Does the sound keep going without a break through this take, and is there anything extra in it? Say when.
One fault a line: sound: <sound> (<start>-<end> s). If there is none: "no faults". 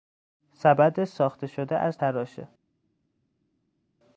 no faults